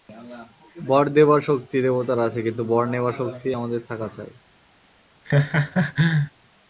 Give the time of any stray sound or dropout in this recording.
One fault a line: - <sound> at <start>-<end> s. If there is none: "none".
- laugh at 5.2-6.3 s